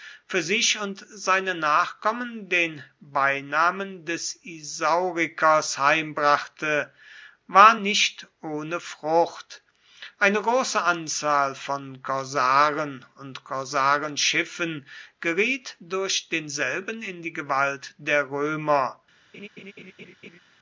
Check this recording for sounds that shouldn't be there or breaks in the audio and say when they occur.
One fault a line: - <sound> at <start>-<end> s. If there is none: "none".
- laugh at 19.3-20.4 s